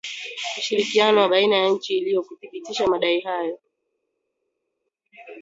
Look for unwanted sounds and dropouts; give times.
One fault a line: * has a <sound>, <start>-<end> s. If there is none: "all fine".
all fine